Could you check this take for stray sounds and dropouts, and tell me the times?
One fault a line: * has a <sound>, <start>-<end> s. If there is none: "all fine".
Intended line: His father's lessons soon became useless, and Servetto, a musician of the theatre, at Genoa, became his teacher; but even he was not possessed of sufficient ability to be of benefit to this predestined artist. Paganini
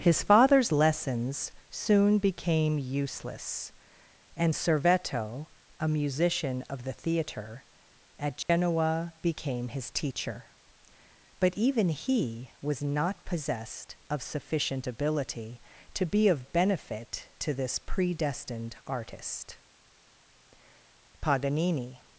* has a dropout, 8.4-8.5 s